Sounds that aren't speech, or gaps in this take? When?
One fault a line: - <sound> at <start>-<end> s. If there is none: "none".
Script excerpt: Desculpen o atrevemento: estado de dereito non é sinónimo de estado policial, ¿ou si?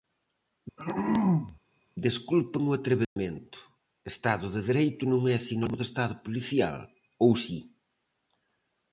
- throat clearing at 0.8-1.6 s
- dropout at 3.0-3.2 s